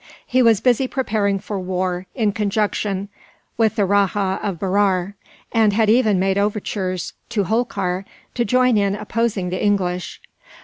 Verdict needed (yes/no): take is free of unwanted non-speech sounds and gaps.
yes